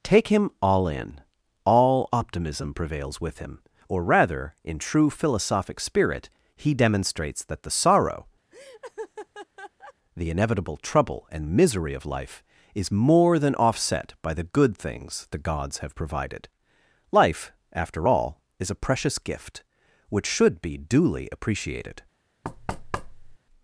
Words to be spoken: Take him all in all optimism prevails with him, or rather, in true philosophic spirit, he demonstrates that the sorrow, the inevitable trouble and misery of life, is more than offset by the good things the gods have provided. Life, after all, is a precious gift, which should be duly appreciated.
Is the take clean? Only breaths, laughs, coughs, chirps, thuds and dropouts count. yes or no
no